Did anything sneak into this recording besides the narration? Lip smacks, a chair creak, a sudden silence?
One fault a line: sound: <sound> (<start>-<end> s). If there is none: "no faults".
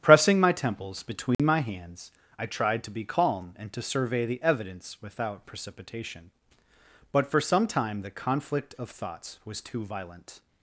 sound: dropout (1.3-1.4 s)